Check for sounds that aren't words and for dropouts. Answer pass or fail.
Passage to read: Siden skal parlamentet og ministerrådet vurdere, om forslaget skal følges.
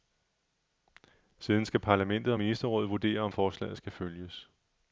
pass